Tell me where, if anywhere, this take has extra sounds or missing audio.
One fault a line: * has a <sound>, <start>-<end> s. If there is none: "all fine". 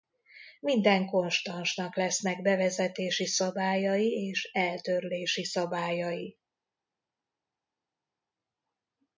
all fine